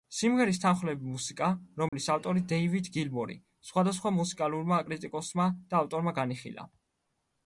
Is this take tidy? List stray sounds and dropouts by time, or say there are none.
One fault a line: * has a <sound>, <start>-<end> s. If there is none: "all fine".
* has a dropout, 1.9-1.9 s